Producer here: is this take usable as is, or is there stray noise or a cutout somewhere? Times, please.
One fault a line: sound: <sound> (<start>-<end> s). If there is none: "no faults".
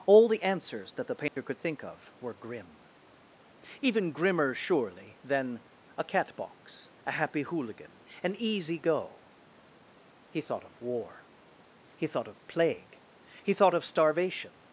sound: dropout (1.3-1.4 s)